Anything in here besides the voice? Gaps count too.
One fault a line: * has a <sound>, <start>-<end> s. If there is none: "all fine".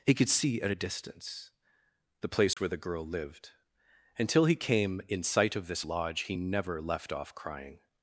* has a dropout, 2.5-2.6 s